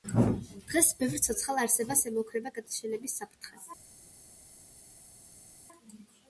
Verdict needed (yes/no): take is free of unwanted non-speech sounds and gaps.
yes